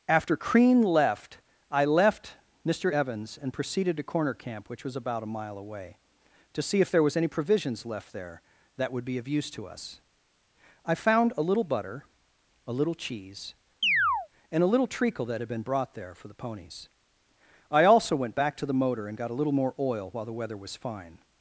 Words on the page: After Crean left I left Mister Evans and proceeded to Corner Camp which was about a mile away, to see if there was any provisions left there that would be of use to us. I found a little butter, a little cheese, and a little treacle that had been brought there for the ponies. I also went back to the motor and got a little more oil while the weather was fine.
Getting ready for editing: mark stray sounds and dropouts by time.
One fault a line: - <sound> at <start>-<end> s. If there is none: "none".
- chirp at 13.8-14.3 s